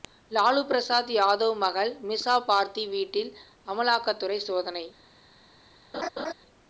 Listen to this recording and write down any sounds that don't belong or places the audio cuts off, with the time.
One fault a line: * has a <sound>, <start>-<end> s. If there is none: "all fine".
* has a laugh, 5.9-6.3 s